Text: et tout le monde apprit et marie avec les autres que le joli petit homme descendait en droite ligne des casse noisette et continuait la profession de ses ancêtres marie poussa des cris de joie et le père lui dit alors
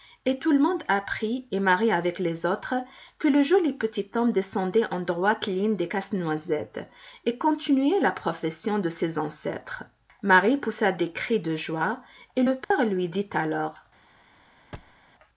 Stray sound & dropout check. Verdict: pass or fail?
fail